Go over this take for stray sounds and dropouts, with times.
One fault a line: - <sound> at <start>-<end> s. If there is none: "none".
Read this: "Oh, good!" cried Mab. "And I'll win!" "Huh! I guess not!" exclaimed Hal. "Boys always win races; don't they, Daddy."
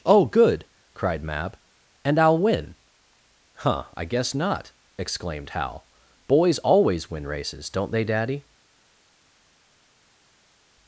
none